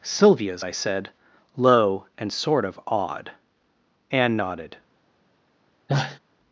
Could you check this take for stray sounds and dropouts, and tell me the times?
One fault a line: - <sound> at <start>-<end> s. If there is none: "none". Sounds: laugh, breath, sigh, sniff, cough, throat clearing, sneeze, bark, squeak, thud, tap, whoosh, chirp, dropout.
- sneeze at 5.9-6.2 s